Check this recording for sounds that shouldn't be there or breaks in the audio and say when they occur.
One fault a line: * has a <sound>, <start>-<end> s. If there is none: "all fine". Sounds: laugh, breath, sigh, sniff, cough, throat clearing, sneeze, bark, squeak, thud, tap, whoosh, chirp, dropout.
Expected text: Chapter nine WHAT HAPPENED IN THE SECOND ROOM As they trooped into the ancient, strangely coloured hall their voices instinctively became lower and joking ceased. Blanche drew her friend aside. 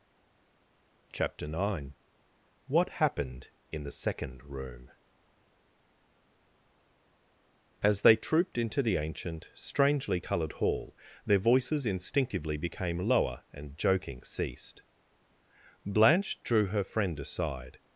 all fine